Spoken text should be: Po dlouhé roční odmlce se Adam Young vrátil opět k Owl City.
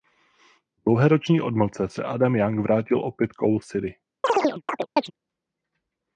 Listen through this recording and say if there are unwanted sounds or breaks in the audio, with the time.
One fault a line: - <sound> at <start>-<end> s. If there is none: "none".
- chirp at 4.2-5.1 s